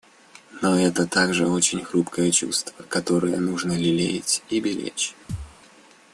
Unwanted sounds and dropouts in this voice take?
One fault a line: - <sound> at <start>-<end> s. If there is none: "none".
- thud at 5.3-5.6 s